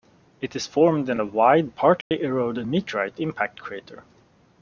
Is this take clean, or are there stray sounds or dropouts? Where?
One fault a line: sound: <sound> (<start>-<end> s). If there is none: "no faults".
sound: dropout (2.0-2.1 s)